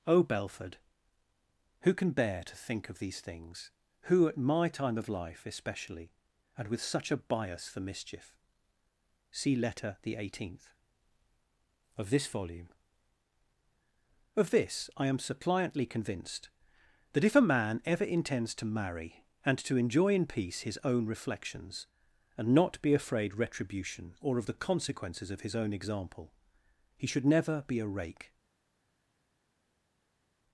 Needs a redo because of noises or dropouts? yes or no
no